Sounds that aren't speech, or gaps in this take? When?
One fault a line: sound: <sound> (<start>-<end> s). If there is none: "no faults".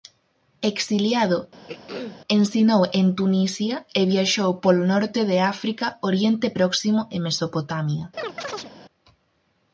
sound: throat clearing (1.7-2.2 s)
sound: chirp (8.2-8.7 s)